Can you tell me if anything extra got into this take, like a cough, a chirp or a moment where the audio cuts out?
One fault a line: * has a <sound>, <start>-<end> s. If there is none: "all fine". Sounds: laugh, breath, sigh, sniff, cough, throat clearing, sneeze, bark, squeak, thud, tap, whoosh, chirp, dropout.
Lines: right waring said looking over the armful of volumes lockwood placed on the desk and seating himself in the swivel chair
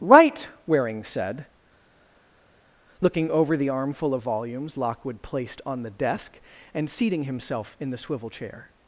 all fine